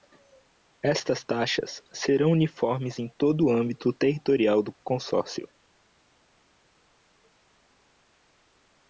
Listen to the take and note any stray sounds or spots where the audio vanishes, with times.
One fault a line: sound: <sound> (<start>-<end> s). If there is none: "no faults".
no faults